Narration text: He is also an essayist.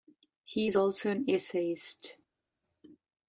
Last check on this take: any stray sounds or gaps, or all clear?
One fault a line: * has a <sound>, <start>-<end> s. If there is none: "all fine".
all fine